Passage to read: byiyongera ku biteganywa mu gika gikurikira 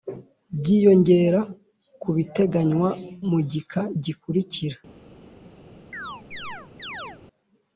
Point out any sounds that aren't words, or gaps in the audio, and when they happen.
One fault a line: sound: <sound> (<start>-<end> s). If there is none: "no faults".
sound: chirp (5.9-7.2 s)